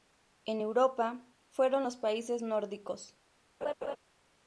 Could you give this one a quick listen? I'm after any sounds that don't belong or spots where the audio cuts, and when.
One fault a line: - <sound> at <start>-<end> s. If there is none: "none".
- laugh at 3.6-4.0 s